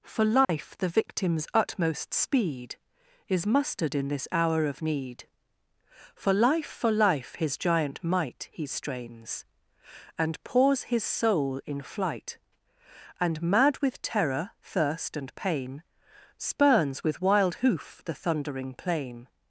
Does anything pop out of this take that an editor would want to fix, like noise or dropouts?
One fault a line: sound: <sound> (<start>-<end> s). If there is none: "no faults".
sound: dropout (0.4-0.5 s)